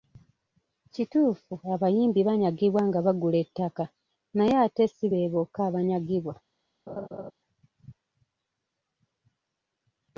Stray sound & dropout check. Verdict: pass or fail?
fail